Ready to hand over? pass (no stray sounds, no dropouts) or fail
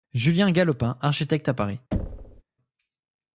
fail